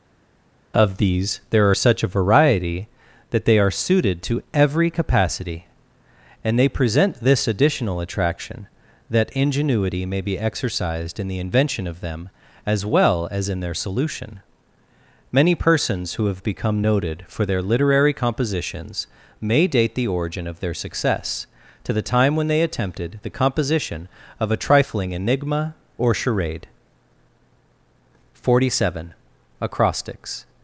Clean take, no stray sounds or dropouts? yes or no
yes